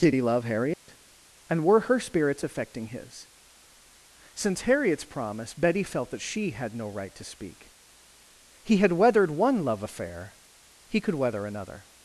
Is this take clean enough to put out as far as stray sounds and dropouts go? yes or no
no